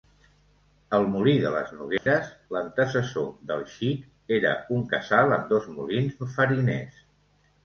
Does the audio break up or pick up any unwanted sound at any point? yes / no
yes